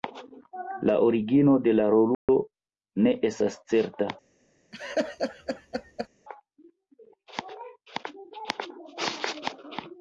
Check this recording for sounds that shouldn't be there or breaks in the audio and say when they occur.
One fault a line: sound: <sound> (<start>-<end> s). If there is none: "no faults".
sound: dropout (2.1-2.3 s)
sound: laugh (4.7-6.1 s)